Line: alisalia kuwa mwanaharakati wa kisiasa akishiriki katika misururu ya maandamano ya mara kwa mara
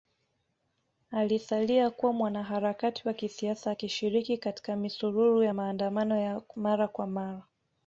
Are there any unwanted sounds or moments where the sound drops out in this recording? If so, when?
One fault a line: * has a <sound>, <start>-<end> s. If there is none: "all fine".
all fine